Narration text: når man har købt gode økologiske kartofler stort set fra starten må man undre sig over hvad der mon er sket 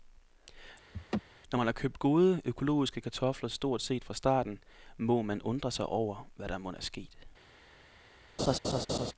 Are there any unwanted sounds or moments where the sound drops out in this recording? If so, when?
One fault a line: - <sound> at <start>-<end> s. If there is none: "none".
- laugh at 0.9-1.2 s
- laugh at 8.4-9.1 s